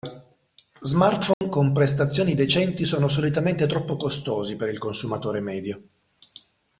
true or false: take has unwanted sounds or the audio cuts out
true